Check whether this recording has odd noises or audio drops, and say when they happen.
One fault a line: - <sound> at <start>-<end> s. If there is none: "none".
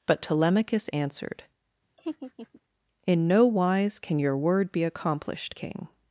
- laugh at 2.0-2.6 s